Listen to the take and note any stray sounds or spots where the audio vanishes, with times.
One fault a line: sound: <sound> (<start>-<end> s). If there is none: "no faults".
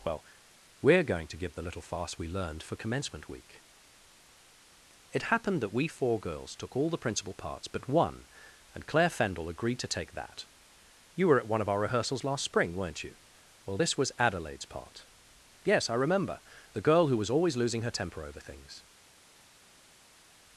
no faults